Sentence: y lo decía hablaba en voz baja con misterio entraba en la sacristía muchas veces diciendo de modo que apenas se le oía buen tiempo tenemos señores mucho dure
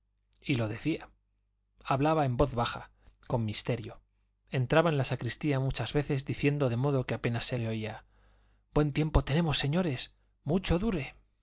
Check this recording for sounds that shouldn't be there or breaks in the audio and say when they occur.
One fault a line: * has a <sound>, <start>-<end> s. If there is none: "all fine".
all fine